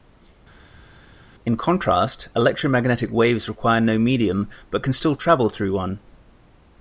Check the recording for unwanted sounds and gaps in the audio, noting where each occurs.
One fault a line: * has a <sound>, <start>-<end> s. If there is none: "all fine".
all fine